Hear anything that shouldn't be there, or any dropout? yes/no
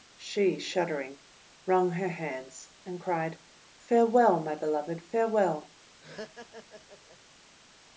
yes